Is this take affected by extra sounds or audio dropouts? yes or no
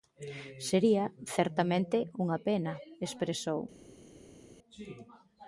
no